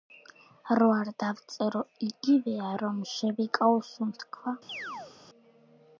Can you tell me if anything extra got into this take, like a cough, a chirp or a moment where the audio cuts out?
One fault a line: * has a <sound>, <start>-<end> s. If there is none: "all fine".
* has a chirp, 4.7-5.1 s